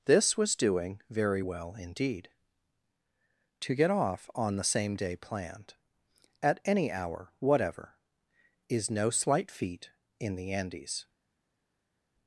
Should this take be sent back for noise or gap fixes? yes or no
no